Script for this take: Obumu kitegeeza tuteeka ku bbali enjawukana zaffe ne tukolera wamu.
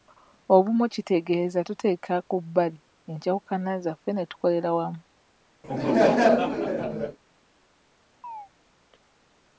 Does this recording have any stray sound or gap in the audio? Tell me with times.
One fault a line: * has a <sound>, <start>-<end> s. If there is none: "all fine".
* has a laugh, 5.6-7.2 s
* has a chirp, 8.2-8.5 s